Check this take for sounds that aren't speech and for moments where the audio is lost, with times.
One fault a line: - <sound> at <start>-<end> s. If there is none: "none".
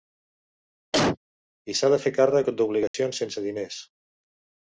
- cough at 0.9-1.2 s
- dropout at 2.9-2.9 s